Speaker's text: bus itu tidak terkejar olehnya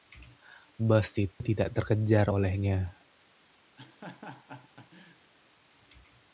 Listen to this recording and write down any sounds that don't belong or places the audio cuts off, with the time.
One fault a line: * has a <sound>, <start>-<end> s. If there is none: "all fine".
* has a dropout, 1.3-1.4 s
* has a laugh, 3.8-5.3 s